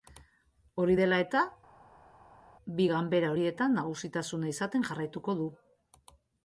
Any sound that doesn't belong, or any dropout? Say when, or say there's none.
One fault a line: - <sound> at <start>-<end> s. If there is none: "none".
none